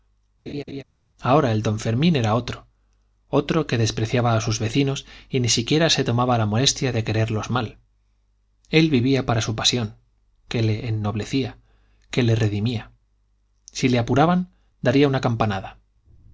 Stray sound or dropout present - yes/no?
yes